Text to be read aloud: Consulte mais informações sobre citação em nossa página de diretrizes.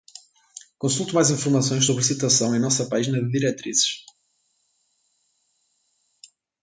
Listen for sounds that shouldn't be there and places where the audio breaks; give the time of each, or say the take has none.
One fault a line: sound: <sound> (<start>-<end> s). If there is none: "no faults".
no faults